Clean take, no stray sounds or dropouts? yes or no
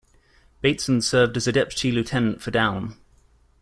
yes